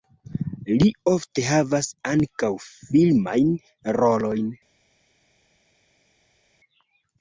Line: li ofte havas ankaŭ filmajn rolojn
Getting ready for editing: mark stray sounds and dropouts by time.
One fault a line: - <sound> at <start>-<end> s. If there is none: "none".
none